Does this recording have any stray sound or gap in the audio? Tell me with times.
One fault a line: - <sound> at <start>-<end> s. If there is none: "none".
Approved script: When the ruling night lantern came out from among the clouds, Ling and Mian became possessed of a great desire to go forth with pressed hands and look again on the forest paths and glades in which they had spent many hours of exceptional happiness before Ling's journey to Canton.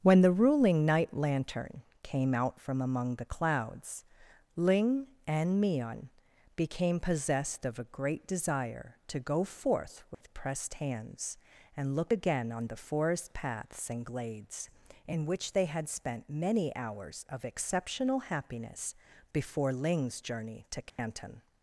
- dropout at 10.1-10.2 s
- dropout at 20.9-21.0 s